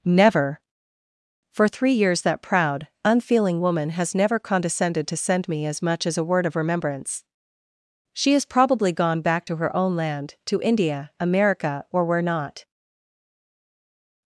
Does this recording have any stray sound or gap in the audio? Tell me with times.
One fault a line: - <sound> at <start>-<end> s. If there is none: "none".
none